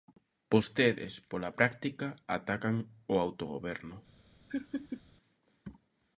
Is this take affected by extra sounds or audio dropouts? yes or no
yes